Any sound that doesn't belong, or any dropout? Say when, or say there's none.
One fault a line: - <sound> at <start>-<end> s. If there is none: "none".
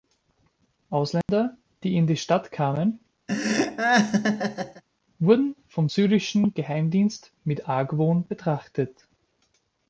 - dropout at 1.2-1.3 s
- laugh at 3.3-4.8 s